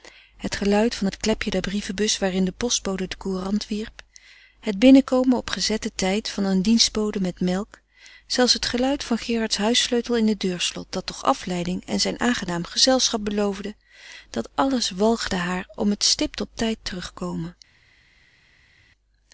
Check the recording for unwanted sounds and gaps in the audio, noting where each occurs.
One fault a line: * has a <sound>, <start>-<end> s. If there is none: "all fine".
all fine